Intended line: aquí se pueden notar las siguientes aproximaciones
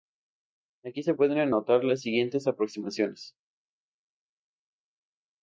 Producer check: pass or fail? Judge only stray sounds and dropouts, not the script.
pass